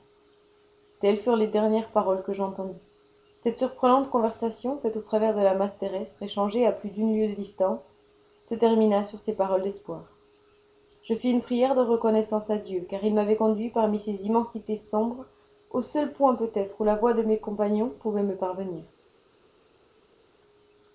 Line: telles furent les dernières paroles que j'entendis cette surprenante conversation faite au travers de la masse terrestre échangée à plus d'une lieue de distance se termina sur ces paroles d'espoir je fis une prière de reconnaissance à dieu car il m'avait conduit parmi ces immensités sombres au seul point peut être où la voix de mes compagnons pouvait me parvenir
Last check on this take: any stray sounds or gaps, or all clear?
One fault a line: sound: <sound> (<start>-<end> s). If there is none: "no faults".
no faults